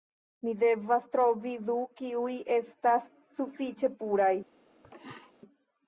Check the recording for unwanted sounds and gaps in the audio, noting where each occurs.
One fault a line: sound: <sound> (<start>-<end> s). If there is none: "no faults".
sound: throat clearing (4.8-5.3 s)